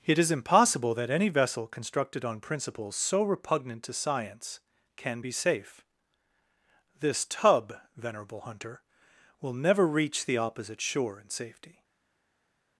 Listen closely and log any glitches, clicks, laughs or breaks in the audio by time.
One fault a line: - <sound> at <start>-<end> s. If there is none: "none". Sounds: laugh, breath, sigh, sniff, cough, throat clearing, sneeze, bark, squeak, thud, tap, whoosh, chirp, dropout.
none